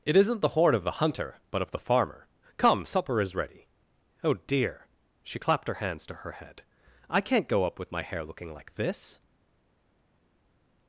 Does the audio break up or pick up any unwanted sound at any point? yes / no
no